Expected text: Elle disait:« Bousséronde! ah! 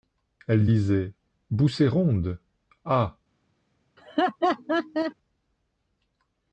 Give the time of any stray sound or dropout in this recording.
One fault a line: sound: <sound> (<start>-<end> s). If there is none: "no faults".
sound: laugh (4.0-5.1 s)